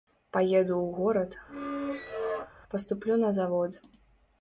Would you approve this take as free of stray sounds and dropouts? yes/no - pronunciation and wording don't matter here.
no